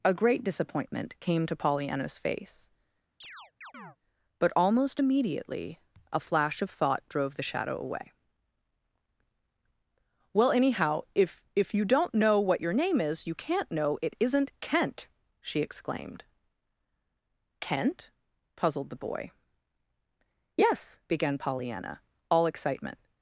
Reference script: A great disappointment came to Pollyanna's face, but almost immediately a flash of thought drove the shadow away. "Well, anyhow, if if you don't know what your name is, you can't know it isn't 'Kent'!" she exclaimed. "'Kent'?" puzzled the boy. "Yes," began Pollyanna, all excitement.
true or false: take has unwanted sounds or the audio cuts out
true